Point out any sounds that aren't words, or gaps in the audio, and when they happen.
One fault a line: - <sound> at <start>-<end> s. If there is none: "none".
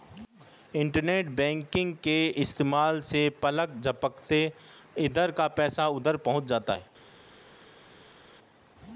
none